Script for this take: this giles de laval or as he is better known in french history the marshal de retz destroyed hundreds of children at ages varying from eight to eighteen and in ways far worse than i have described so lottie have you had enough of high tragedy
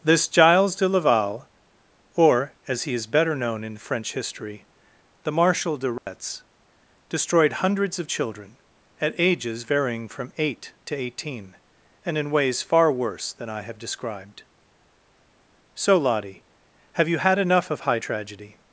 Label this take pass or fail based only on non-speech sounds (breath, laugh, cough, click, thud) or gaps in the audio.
fail